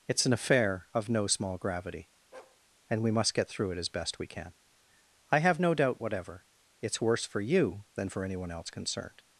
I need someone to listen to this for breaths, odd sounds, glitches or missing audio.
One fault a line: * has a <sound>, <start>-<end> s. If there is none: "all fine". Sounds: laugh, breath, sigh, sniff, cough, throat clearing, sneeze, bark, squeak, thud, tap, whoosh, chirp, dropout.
* has a bark, 2.3-2.6 s